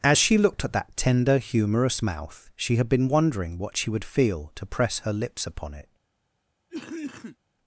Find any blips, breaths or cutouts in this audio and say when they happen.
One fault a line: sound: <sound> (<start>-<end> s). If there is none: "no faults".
sound: cough (6.7-7.4 s)